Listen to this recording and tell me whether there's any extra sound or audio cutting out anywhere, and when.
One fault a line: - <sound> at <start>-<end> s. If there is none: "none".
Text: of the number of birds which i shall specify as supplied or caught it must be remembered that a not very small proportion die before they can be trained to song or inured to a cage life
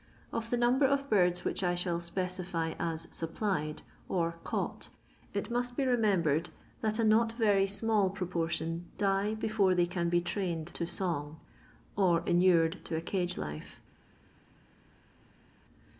none